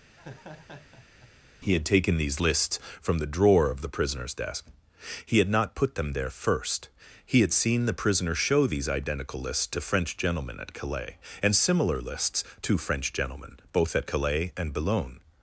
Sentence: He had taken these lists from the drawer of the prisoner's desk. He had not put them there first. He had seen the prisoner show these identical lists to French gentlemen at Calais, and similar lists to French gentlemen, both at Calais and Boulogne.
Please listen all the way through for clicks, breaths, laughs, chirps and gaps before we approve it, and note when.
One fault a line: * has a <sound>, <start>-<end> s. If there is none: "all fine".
* has a laugh, 0.1-1.3 s